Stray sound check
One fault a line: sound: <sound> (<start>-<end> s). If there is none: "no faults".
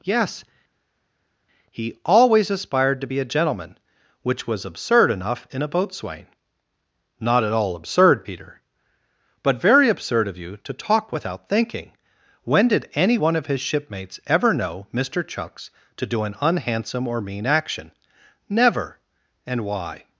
no faults